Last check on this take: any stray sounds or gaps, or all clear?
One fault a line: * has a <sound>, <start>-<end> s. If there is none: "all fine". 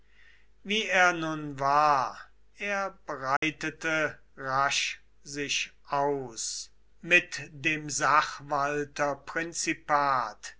* has a dropout, 3.4-3.4 s